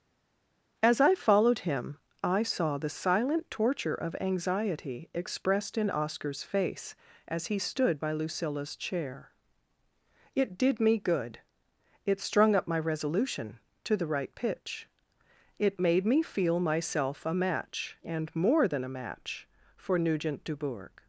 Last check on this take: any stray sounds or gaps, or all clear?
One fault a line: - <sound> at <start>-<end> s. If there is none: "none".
none